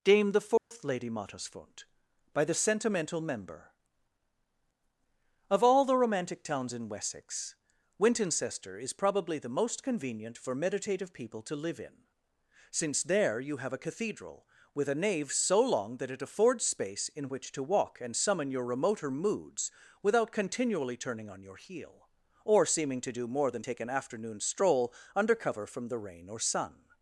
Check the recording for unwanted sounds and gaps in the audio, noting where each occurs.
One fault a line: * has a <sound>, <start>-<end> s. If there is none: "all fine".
* has a dropout, 0.6-0.7 s